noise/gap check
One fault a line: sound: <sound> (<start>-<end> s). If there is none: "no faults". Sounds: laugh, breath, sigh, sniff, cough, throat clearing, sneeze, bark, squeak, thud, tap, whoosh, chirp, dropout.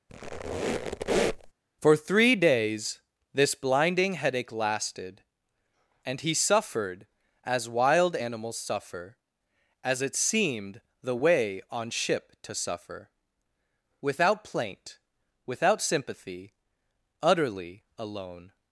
sound: squeak (0.1-1.5 s)